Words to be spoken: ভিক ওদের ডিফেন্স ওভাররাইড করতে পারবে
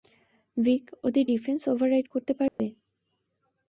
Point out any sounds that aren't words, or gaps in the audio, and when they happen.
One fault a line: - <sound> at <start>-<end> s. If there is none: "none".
- dropout at 2.5-2.6 s